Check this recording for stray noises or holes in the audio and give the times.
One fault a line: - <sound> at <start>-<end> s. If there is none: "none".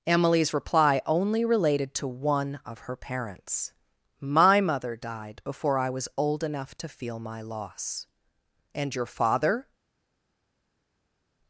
none